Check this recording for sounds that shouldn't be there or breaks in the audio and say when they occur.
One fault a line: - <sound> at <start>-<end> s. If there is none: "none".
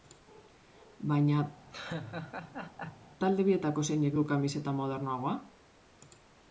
- laugh at 1.7-3.1 s